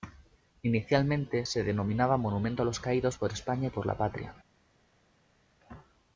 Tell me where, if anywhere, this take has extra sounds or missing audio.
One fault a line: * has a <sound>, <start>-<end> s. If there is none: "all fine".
all fine